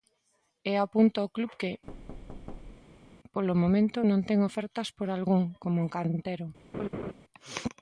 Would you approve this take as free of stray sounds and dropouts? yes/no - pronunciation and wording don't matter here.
no